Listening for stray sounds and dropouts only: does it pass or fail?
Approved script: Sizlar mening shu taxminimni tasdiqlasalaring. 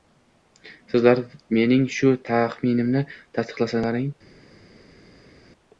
pass